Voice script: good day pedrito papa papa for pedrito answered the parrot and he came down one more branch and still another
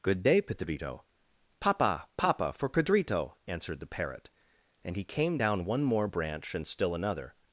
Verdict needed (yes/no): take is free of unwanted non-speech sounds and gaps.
yes